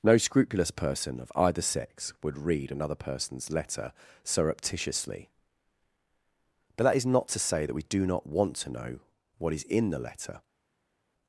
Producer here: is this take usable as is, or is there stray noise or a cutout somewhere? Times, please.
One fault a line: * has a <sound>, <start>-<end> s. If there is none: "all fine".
all fine